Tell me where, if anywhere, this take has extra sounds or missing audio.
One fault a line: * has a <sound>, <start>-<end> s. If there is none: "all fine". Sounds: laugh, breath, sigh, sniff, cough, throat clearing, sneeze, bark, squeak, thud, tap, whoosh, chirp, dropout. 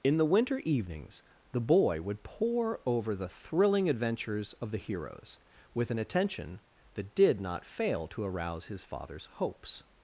all fine